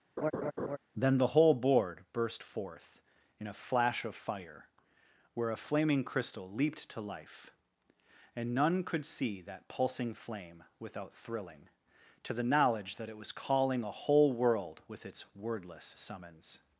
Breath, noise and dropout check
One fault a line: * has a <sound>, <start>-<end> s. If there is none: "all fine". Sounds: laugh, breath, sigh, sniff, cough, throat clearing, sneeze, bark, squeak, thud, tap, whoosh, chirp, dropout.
* has a laugh, 0.2-0.8 s